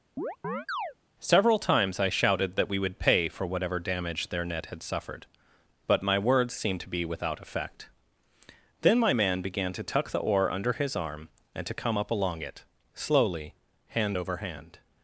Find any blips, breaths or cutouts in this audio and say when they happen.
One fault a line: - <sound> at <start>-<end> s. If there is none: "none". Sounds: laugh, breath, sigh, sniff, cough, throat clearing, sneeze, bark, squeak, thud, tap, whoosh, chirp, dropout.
- chirp at 0.2-0.9 s